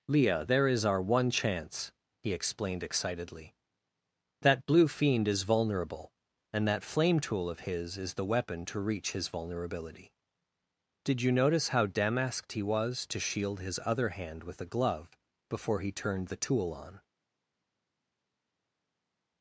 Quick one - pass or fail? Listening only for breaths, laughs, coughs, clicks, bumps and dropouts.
pass